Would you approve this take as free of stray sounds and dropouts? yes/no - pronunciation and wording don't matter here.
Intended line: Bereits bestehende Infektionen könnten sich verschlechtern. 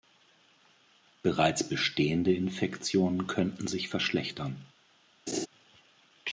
no